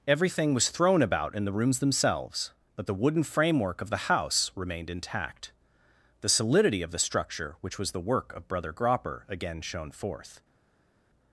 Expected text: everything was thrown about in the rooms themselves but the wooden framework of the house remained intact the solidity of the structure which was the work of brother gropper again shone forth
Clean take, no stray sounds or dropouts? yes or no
yes